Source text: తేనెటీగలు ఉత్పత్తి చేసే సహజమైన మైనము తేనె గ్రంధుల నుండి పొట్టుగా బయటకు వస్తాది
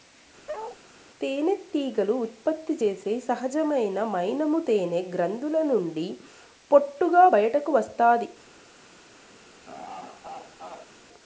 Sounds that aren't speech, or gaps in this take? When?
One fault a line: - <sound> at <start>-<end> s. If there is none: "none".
- bark at 0.5-0.8 s
- laugh at 9.6-10.9 s